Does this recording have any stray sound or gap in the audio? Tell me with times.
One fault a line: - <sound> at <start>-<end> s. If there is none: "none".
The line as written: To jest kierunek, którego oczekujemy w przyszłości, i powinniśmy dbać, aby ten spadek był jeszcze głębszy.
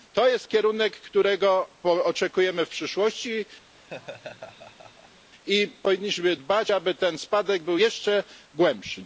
- laugh at 3.7-5.3 s